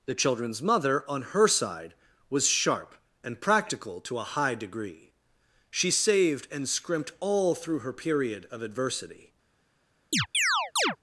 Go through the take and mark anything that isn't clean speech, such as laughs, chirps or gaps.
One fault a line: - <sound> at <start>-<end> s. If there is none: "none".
- chirp at 10.1-11.0 s